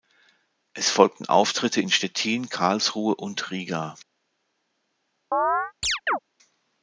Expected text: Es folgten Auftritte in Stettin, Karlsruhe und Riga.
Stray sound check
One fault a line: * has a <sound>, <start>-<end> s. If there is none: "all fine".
* has a chirp, 5.3-6.2 s